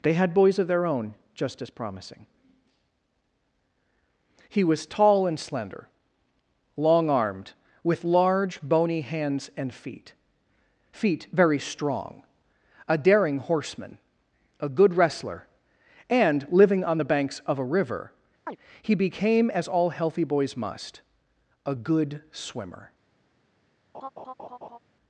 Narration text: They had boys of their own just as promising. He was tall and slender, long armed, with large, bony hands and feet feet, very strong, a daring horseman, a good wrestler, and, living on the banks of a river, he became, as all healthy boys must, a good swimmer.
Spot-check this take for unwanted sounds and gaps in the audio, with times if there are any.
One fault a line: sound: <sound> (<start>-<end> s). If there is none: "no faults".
sound: chirp (18.5-18.6 s)
sound: laugh (23.9-24.8 s)